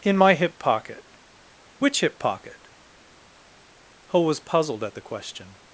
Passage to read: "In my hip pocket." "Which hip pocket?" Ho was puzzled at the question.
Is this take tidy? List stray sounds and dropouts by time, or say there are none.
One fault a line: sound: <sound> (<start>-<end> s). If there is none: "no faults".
no faults